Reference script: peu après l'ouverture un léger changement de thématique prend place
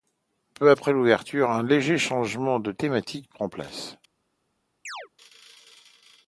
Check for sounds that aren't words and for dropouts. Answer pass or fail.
fail